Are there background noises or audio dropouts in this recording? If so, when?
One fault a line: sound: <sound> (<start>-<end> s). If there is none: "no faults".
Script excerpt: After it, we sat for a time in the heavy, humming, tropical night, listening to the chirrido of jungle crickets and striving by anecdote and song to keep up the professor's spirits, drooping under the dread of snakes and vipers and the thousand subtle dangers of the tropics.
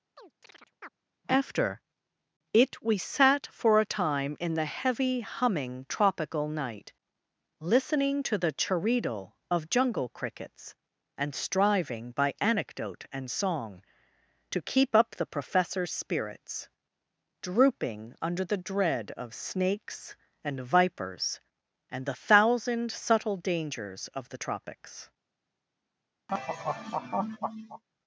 sound: chirp (0.2-0.9 s)
sound: laugh (26.3-27.8 s)